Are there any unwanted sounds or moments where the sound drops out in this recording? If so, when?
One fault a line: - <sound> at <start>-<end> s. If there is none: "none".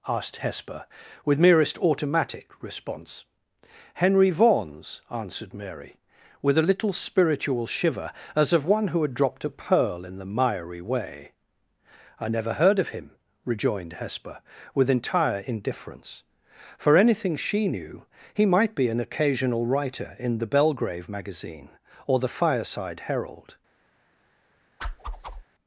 - whoosh at 24.8-25.4 s